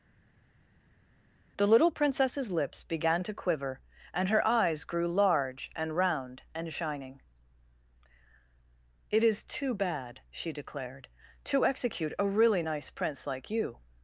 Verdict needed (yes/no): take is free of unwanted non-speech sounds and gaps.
yes